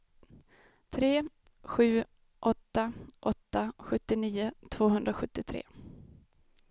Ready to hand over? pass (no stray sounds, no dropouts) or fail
pass